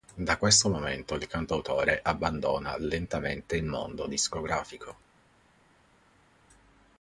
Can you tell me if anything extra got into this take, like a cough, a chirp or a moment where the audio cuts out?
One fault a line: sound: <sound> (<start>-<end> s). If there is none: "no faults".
no faults